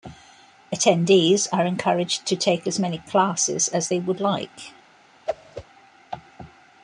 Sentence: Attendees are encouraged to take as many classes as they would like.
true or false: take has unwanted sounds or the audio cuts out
true